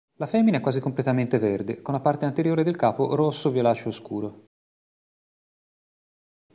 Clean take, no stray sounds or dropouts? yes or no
yes